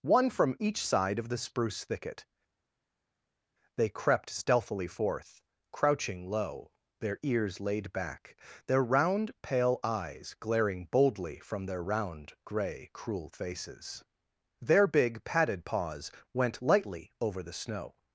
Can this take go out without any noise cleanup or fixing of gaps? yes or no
yes